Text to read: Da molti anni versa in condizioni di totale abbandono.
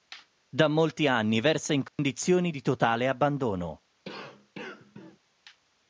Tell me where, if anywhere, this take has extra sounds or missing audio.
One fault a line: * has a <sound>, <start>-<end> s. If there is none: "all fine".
* has a dropout, 1.9-2.0 s
* has a cough, 4.0-5.2 s